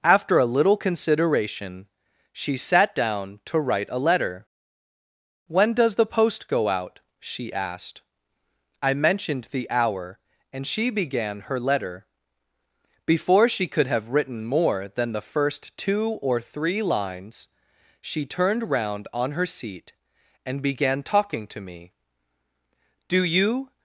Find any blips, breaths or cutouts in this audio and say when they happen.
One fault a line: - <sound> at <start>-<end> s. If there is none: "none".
none